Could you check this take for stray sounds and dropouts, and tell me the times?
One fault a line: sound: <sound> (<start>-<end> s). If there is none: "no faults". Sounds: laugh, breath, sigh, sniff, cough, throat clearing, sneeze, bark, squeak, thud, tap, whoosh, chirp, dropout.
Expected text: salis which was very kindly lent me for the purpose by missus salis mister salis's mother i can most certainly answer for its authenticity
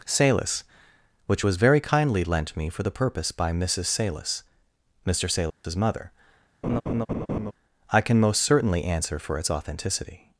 sound: dropout (5.5-5.6 s)
sound: laugh (6.6-7.5 s)